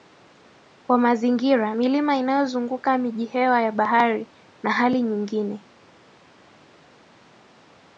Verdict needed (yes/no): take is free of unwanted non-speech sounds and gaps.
yes